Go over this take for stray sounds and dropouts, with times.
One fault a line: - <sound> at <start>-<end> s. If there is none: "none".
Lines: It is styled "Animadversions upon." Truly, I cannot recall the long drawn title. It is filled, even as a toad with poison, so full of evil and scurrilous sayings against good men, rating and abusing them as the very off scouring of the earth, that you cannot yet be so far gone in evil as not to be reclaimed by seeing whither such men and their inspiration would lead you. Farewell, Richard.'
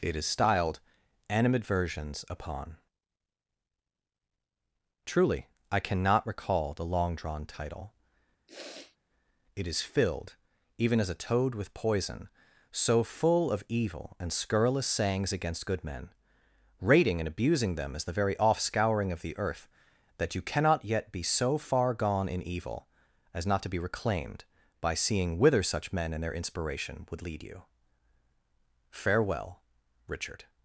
- sniff at 8.5-9.0 s